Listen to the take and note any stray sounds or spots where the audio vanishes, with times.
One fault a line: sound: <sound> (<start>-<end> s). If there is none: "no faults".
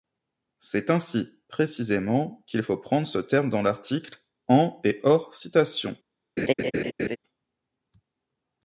sound: laugh (6.4-7.2 s)